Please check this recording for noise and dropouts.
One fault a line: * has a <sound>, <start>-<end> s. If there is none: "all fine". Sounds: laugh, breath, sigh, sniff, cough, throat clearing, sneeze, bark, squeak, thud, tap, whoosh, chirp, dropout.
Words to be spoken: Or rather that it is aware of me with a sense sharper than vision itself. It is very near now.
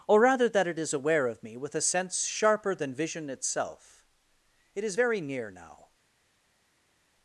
all fine